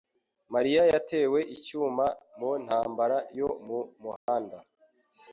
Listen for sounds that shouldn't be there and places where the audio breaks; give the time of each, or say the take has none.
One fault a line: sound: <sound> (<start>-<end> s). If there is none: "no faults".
sound: dropout (4.2-4.3 s)